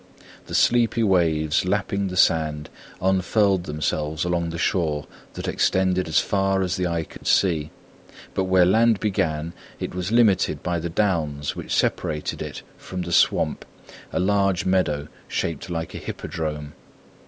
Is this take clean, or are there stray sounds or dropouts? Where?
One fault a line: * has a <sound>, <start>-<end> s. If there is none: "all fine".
* has a dropout, 7.2-7.2 s